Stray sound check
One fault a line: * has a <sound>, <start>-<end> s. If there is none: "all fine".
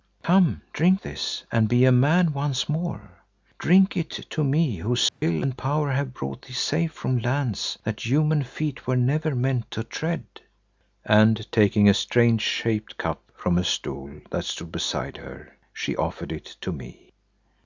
* has a dropout, 5.1-5.2 s